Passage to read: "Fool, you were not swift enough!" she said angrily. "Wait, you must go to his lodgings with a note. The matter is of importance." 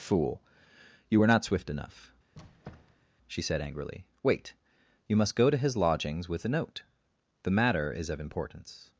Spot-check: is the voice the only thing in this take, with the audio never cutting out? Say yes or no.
no